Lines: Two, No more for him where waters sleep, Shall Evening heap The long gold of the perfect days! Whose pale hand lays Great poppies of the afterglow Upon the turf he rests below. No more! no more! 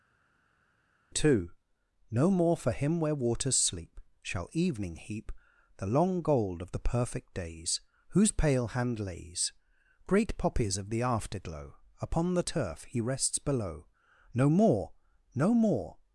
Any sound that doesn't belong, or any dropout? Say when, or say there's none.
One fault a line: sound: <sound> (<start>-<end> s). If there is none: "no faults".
no faults